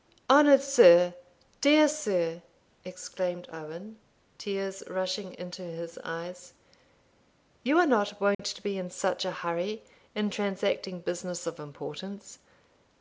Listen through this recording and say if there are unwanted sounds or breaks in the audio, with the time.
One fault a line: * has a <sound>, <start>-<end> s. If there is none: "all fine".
* has a dropout, 8.3-8.4 s